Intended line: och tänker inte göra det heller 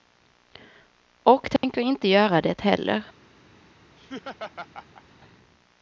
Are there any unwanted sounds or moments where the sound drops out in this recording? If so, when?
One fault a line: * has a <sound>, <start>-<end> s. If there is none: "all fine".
* has a dropout, 1.6-1.6 s
* has a laugh, 4.0-5.0 s